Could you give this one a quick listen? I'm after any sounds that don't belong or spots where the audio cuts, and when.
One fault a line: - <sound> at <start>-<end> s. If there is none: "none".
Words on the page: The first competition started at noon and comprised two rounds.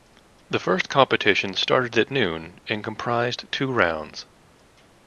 none